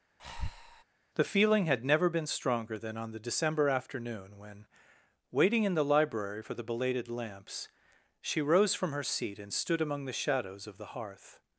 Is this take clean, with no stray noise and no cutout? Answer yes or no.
no